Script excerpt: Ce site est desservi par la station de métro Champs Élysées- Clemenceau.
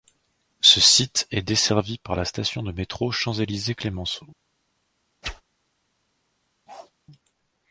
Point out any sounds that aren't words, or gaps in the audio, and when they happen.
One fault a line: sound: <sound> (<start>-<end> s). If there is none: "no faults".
sound: whoosh (5.2-5.4 s)
sound: bark (6.7-6.9 s)